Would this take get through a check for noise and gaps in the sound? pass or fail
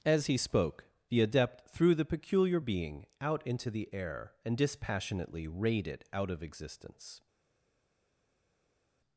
pass